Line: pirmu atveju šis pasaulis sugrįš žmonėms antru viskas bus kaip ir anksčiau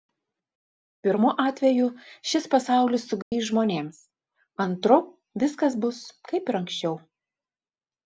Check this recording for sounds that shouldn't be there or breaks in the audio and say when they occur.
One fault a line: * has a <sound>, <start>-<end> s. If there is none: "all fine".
* has a dropout, 3.2-3.3 s